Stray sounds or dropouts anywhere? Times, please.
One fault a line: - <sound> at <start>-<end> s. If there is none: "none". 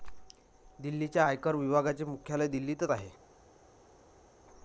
none